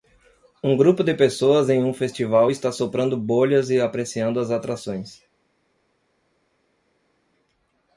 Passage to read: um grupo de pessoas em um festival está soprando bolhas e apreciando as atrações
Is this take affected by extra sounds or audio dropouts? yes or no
no